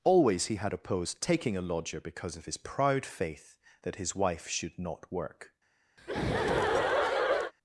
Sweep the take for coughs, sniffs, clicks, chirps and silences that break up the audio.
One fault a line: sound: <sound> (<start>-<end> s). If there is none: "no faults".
sound: laugh (6.0-7.5 s)